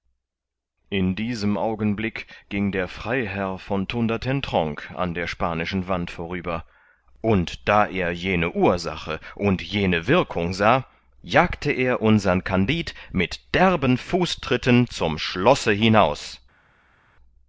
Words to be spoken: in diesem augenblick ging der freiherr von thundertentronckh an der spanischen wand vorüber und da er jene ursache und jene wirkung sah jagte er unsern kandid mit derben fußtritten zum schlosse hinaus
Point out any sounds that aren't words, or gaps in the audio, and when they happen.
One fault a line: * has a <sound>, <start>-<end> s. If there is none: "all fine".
all fine